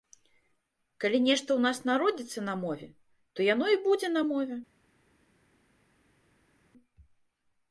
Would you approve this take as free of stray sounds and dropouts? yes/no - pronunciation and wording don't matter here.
yes